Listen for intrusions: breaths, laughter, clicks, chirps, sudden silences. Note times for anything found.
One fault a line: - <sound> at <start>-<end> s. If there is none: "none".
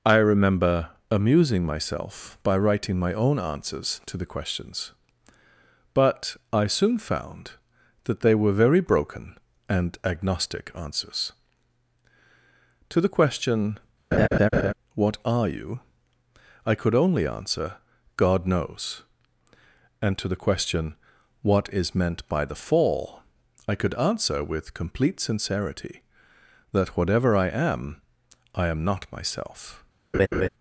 - laugh at 14.1-14.7 s
- laugh at 30.1-30.5 s